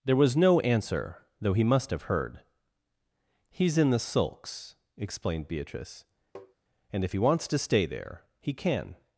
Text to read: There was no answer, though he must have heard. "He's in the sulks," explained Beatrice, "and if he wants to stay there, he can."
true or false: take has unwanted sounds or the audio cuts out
true